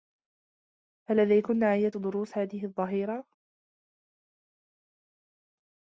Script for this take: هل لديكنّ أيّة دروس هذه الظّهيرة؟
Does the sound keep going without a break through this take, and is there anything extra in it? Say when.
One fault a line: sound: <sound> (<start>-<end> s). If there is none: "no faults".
no faults